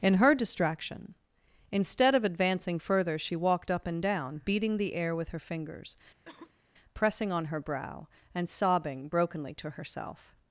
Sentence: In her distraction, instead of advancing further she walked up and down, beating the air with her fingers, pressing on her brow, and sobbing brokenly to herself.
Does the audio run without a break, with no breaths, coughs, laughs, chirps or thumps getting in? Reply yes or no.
no